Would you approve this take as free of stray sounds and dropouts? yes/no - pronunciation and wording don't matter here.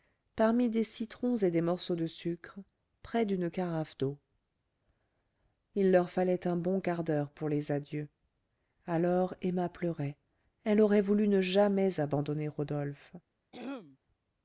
no